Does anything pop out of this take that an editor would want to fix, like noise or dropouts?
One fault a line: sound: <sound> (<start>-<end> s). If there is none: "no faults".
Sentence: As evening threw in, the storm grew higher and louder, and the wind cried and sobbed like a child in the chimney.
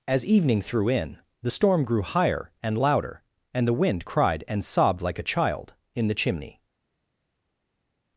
no faults